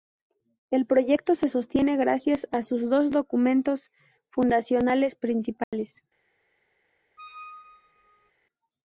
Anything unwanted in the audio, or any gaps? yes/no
yes